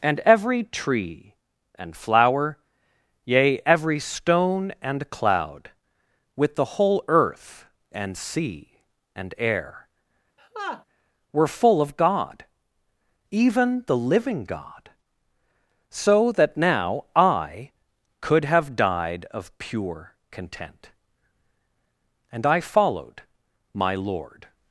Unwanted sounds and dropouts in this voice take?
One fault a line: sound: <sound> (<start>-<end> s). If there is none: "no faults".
sound: laugh (10.4-10.8 s)